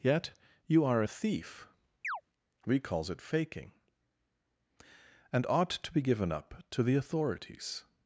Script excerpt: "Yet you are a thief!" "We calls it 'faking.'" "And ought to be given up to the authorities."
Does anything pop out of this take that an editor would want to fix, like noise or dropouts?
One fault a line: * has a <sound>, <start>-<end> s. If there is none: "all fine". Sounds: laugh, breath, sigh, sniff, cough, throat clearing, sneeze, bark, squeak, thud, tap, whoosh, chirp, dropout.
* has a chirp, 2.0-2.2 s